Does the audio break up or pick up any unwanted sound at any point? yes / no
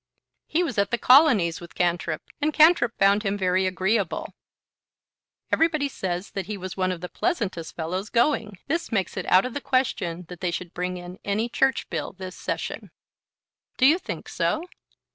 no